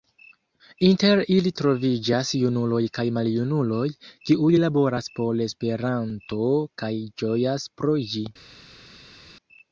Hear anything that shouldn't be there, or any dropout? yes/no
no